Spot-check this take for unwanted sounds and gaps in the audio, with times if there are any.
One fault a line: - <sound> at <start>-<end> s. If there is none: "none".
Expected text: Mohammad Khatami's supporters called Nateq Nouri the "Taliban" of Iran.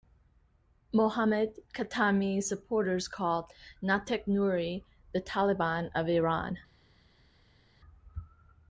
none